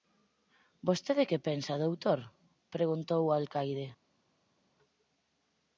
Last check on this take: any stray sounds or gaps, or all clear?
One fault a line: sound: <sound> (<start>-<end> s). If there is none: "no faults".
no faults